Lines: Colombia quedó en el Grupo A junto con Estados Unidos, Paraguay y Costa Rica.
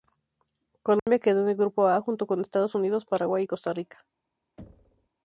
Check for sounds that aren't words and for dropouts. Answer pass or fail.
fail